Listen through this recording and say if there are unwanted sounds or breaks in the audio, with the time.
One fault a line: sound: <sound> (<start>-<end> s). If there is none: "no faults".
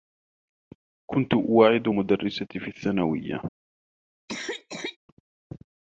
sound: cough (4.3-5.0 s)